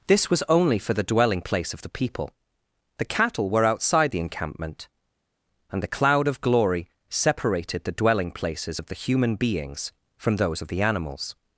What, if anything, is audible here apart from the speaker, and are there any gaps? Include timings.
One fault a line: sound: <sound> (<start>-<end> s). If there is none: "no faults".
no faults